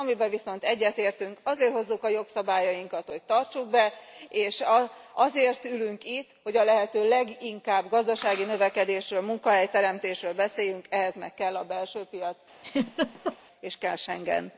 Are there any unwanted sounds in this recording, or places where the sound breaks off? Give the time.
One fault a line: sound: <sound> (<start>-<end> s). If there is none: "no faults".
sound: laugh (12.6-13.4 s)